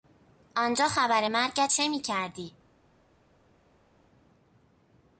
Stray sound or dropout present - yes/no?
no